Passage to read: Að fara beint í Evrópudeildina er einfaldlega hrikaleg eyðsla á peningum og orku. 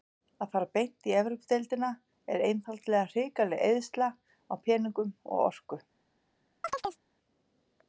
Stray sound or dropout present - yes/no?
yes